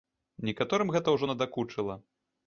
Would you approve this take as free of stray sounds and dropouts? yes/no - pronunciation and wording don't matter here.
yes